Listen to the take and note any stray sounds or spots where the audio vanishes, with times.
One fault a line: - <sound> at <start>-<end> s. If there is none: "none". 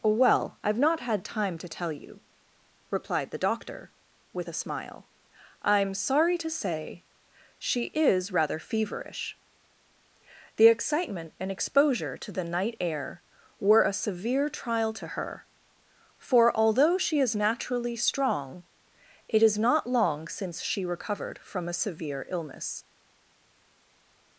none